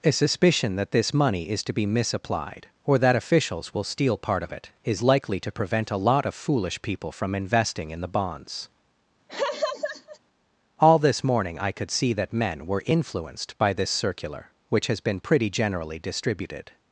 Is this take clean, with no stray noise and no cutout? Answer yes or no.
no